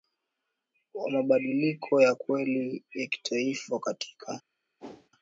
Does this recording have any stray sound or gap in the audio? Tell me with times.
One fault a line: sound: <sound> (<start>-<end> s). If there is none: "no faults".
sound: whoosh (4.8-5.1 s)